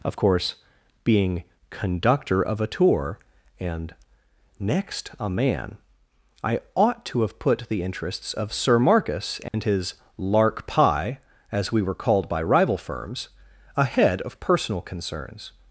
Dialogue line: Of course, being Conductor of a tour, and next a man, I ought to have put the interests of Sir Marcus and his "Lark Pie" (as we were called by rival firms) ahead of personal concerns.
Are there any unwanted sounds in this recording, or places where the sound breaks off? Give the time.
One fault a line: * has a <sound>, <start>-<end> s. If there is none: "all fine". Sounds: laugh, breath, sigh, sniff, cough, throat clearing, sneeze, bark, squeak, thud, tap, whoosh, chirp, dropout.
* has a dropout, 9.5-9.5 s